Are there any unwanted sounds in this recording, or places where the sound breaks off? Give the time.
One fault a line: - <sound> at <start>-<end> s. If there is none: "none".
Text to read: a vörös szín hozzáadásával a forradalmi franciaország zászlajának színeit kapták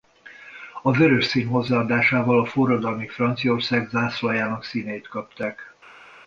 none